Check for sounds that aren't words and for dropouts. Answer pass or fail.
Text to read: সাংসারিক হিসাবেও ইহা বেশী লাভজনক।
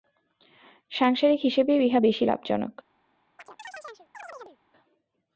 fail